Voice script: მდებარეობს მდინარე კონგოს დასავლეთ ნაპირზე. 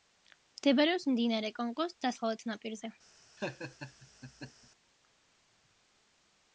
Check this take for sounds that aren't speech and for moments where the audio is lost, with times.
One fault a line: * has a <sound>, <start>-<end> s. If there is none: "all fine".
* has a laugh, 3.4-4.7 s